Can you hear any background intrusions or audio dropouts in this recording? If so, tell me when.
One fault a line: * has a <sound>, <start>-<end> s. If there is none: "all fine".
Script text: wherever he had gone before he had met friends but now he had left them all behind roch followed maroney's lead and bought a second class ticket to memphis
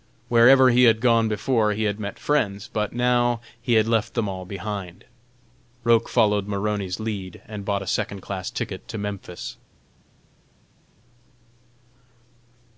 all fine